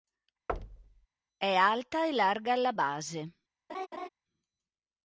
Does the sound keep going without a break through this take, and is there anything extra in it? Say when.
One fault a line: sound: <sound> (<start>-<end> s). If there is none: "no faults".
sound: thud (0.5-1.1 s)
sound: laugh (3.7-4.1 s)